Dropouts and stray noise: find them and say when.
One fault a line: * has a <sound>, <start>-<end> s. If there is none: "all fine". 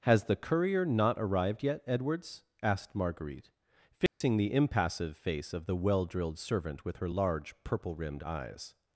* has a dropout, 4.1-4.2 s